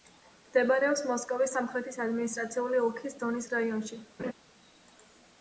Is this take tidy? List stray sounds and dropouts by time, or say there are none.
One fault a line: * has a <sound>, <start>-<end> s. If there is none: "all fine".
* has a laugh, 4.2-4.3 s